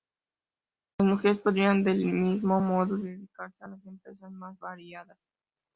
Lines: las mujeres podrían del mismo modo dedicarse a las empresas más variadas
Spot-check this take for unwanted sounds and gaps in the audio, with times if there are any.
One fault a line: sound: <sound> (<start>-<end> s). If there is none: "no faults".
no faults